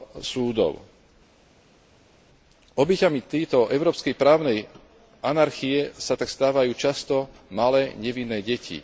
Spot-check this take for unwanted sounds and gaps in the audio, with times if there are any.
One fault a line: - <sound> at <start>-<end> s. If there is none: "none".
none